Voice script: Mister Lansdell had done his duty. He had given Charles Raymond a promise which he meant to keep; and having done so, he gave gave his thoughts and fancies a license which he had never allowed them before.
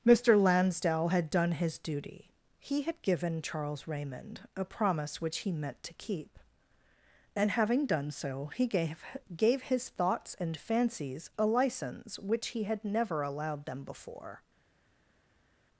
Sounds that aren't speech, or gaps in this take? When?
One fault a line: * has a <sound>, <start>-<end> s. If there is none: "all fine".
all fine